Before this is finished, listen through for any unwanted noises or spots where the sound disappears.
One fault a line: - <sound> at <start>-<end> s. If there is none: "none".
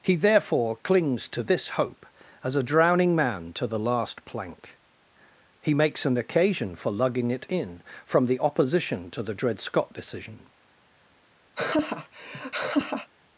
- laugh at 11.5-13.1 s